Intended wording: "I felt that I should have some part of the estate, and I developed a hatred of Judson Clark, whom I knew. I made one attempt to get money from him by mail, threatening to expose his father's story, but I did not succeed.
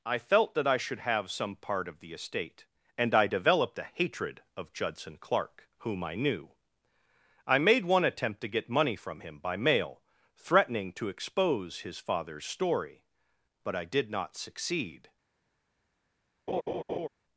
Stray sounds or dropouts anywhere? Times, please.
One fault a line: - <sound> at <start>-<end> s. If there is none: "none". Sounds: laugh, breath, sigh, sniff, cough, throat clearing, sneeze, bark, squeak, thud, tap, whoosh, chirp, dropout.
- laugh at 16.5-17.1 s